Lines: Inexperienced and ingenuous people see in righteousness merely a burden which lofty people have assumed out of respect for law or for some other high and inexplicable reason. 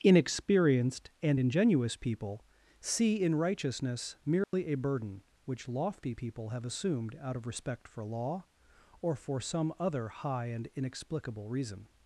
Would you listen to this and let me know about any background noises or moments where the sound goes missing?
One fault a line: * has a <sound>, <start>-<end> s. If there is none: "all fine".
* has a dropout, 4.4-4.5 s